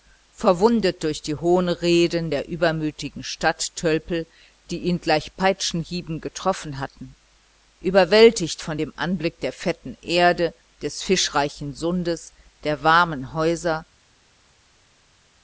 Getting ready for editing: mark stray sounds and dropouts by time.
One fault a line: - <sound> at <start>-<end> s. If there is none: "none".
none